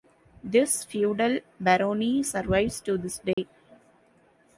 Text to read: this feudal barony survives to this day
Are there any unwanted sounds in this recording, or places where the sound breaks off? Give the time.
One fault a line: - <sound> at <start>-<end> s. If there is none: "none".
- dropout at 3.3-3.4 s